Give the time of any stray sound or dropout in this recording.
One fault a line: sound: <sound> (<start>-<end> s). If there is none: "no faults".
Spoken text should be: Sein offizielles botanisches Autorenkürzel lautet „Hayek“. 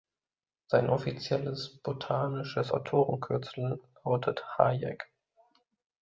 no faults